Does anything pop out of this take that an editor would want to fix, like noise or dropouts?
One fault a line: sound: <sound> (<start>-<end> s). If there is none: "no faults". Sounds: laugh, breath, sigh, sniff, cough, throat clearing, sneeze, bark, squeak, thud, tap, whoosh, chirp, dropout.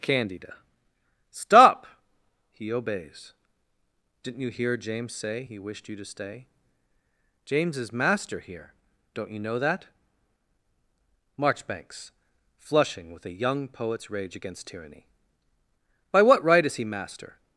no faults